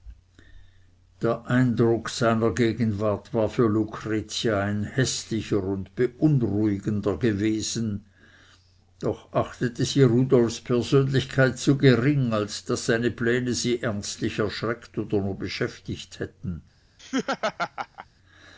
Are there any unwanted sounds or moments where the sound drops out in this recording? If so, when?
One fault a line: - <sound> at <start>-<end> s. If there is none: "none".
- laugh at 17.0-18.1 s